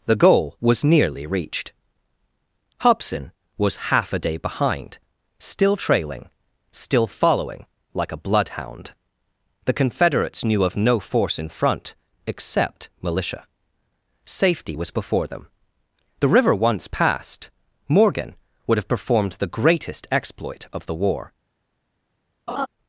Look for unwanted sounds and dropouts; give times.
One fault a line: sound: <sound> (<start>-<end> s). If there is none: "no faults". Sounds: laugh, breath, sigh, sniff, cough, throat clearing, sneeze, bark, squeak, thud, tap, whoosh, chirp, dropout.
sound: laugh (22.5-22.7 s)